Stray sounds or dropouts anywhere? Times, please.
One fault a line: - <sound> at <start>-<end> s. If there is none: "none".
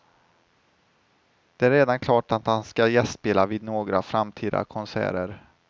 none